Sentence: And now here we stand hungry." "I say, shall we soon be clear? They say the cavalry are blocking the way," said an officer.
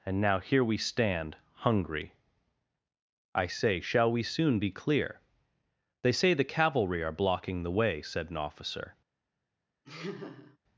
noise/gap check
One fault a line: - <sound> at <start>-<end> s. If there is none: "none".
- laugh at 9.8-10.6 s